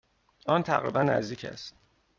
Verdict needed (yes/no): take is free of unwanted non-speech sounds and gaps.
yes